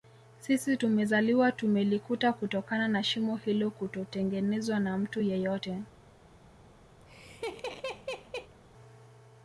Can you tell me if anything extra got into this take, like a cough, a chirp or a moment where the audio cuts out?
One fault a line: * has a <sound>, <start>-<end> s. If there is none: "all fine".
* has a laugh, 7.0-8.5 s